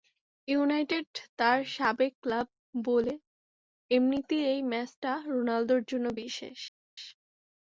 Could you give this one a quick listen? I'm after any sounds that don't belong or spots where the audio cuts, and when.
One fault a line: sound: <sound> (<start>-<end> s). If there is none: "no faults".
no faults